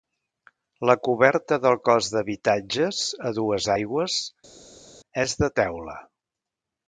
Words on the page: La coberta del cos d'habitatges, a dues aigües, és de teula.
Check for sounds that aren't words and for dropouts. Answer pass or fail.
pass